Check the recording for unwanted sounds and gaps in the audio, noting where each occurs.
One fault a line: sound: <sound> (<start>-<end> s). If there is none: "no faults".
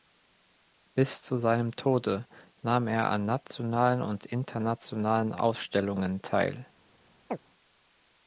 sound: chirp (7.3-7.4 s)